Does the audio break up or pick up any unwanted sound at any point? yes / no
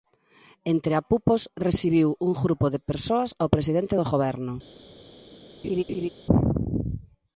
yes